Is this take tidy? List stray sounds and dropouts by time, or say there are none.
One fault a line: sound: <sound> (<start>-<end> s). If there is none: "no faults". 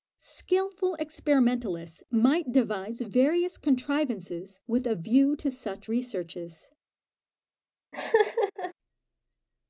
sound: laugh (7.9-8.7 s)